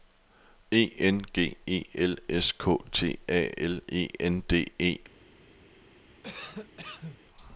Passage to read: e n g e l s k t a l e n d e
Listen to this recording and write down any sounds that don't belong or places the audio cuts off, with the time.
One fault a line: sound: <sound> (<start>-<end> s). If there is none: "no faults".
sound: cough (6.2-7.2 s)